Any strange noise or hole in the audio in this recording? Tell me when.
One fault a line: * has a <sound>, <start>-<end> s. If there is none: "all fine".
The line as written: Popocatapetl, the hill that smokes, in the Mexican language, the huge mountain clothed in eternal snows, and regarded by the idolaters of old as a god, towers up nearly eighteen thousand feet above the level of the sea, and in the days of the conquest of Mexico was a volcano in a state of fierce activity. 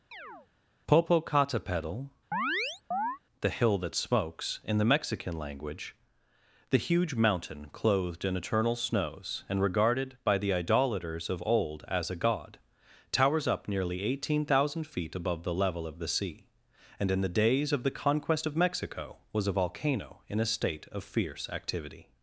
* has a chirp, 0.1-0.5 s
* has a chirp, 2.3-3.2 s